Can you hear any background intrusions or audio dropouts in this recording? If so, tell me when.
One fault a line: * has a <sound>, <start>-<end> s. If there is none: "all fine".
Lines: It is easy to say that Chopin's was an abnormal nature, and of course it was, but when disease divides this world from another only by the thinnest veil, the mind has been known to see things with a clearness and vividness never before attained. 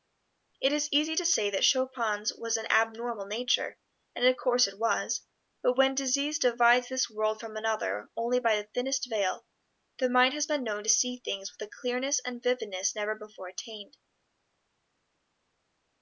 all fine